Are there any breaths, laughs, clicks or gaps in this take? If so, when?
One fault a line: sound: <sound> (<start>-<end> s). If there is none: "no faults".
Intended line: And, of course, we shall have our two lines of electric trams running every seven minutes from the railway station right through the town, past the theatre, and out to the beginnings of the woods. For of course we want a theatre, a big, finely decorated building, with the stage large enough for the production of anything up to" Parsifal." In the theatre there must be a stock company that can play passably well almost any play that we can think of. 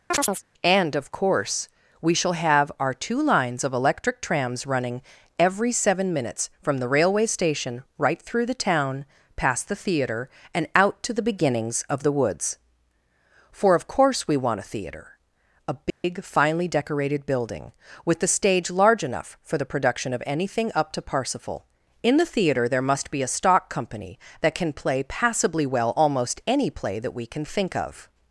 sound: chirp (0.1-0.4 s)
sound: dropout (15.9-16.0 s)